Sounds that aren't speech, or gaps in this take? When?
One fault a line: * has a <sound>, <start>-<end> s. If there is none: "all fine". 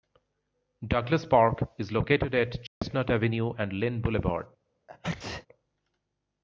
* has a dropout, 2.7-2.8 s
* has a sneeze, 4.9-5.5 s